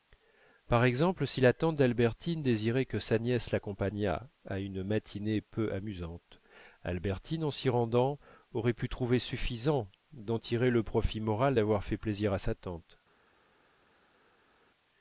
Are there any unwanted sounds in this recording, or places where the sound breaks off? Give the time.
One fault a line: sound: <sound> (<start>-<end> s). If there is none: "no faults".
no faults